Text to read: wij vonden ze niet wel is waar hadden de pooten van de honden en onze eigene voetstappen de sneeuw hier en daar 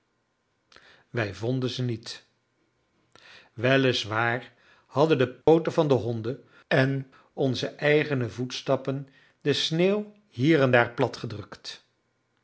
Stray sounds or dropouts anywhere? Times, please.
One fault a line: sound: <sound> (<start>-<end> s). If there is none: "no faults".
sound: dropout (5.4-5.5 s)